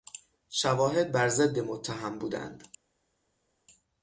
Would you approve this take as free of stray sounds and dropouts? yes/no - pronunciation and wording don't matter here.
yes